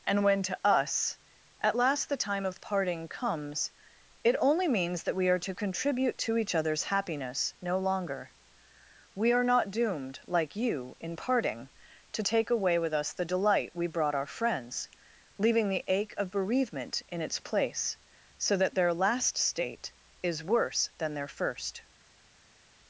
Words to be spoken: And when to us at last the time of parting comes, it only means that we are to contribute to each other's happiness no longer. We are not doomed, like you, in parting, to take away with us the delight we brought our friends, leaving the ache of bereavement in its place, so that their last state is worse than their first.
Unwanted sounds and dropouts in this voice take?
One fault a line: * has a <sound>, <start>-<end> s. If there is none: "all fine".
all fine